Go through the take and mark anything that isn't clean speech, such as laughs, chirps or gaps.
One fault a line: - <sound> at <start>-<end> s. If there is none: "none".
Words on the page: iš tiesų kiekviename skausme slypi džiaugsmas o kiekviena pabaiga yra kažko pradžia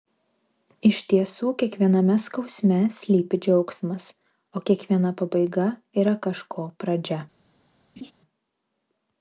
- laugh at 8.0-8.1 s